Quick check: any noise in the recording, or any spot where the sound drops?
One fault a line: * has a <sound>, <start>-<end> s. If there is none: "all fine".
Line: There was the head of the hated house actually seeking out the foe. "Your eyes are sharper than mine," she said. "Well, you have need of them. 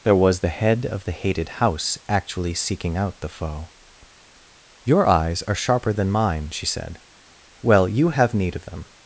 all fine